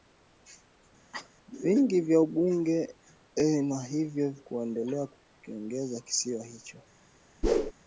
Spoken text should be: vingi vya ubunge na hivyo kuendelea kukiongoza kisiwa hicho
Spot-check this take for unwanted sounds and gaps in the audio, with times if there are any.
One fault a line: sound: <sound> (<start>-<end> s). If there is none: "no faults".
sound: cough (1.1-1.3 s)
sound: whoosh (7.4-7.7 s)